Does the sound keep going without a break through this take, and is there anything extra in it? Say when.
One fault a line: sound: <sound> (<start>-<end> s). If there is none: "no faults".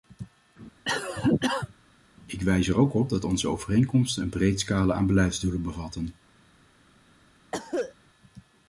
sound: cough (0.8-1.7 s)
sound: cough (7.5-7.9 s)